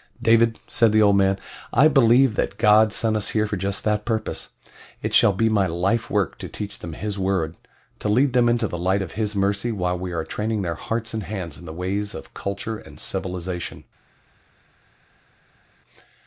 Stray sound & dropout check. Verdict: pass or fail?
pass